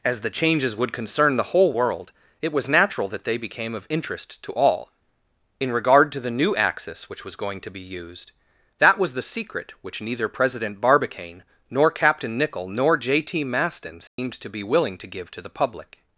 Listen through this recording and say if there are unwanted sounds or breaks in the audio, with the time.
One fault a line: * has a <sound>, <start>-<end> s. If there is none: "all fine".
* has a dropout, 14.1-14.2 s